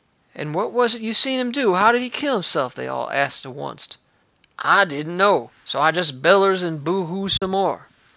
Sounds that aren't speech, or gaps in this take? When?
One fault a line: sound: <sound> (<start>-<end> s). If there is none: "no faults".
sound: dropout (7.4-7.4 s)